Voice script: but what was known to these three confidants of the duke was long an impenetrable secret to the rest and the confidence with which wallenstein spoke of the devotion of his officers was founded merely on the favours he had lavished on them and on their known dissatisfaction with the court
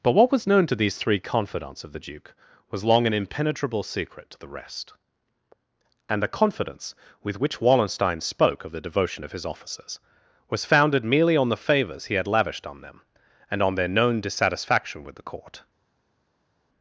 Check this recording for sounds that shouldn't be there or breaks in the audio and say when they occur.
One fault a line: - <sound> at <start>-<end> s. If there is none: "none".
none